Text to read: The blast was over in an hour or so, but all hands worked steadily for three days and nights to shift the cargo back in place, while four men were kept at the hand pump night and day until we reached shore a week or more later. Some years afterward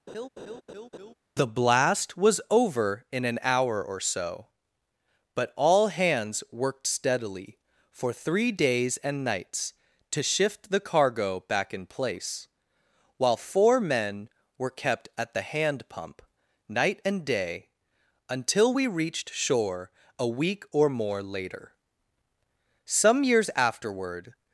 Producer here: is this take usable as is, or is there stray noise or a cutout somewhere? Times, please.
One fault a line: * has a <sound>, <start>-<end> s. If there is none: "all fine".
* has a laugh, 0.1-1.1 s